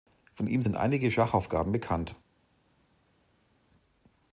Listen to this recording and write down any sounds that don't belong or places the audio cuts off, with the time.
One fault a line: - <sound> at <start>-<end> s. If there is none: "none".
none